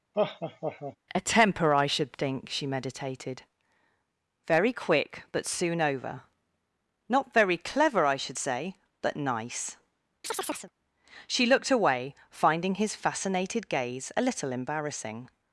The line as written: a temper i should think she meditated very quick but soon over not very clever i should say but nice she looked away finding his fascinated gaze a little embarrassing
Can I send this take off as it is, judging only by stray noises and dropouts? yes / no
no